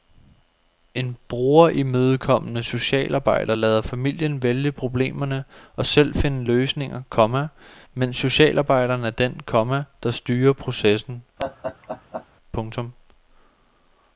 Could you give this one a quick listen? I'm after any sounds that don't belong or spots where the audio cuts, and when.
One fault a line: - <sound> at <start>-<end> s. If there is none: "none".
- laugh at 11.4-12.3 s